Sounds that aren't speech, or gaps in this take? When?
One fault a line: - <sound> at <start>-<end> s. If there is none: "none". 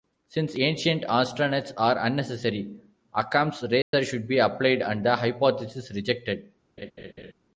- dropout at 3.8-3.9 s
- laugh at 6.8-7.3 s